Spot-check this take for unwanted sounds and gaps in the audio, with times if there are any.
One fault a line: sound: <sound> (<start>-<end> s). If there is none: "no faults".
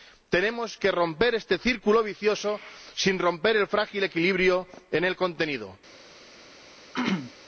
sound: throat clearing (6.9-7.3 s)